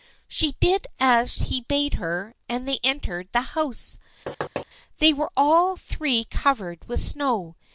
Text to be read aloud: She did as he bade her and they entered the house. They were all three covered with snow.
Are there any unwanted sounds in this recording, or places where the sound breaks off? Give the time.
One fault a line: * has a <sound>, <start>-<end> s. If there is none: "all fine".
* has a thud, 4.3-4.7 s